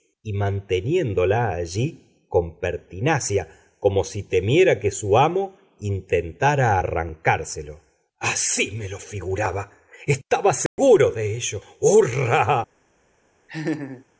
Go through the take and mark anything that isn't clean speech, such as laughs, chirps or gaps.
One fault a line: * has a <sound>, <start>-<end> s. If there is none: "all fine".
* has a dropout, 10.7-10.8 s
* has a laugh, 13.5-14.0 s